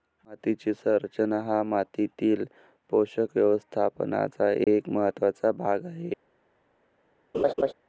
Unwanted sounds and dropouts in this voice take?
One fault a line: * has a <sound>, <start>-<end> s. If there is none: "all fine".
* has a dropout, 4.6-4.7 s
* has a laugh, 7.3-7.7 s